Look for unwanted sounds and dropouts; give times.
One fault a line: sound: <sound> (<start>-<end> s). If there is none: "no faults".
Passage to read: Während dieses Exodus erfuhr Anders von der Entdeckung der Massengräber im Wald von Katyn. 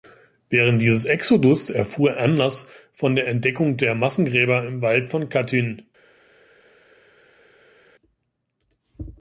no faults